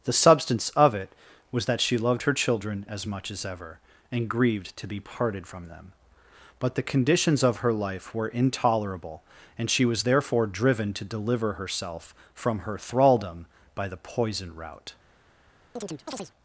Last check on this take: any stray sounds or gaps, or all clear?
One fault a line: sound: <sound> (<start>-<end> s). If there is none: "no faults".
sound: chirp (15.8-16.3 s)